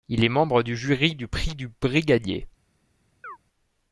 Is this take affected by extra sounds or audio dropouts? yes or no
yes